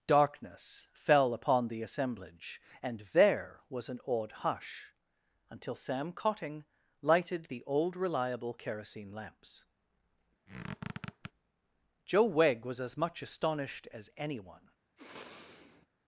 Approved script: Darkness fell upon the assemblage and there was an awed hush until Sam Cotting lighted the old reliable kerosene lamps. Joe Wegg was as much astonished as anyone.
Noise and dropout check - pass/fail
fail